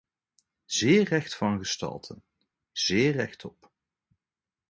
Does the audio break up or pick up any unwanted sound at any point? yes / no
no